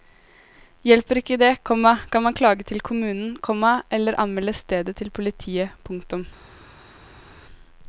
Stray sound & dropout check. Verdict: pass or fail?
pass